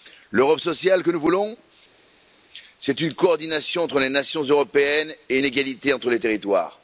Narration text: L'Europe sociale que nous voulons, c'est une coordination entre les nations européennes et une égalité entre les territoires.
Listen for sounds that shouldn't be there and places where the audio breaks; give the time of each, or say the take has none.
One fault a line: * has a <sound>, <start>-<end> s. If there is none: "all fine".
all fine